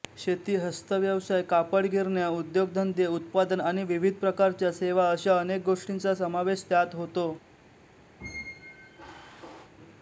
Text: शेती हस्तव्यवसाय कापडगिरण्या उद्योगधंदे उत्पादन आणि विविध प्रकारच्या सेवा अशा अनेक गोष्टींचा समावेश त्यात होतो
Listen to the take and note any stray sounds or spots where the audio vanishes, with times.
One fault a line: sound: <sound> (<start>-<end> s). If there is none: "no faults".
sound: squeak (8.2-9.7 s)